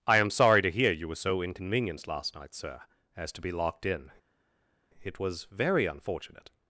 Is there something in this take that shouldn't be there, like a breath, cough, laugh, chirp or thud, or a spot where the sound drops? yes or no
no